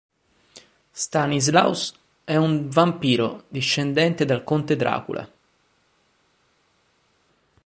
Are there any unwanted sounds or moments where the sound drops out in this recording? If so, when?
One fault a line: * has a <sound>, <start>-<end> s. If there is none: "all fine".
all fine